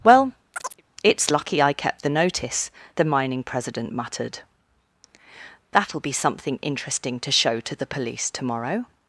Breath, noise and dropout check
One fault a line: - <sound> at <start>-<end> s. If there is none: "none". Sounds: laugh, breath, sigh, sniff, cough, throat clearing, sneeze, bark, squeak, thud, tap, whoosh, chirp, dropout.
- chirp at 0.5-0.8 s